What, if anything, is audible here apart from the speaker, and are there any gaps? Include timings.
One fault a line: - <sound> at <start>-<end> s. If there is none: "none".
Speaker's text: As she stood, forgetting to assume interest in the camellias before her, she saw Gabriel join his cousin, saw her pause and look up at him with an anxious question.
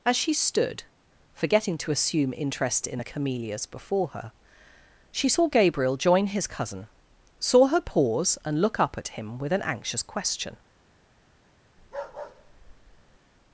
- bark at 11.8-13.2 s